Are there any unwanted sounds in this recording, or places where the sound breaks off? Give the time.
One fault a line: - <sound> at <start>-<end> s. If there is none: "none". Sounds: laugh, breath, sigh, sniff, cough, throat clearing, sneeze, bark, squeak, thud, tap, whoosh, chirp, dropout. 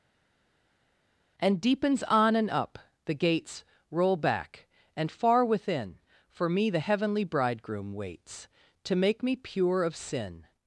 none